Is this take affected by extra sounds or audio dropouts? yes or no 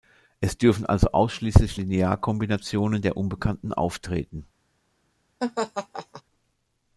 yes